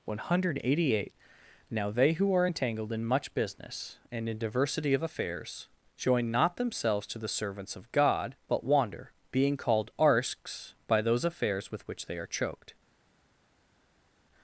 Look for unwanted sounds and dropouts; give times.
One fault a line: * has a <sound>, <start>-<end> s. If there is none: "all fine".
all fine